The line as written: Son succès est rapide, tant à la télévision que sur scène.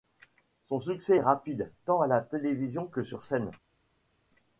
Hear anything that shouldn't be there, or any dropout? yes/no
no